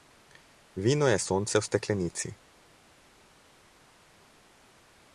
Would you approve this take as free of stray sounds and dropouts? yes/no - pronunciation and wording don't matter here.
yes